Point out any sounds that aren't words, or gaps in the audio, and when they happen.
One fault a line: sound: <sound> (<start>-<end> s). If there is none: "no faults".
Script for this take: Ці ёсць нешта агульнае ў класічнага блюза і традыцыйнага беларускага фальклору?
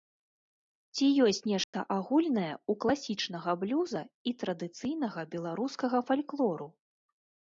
sound: dropout (1.6-1.7 s)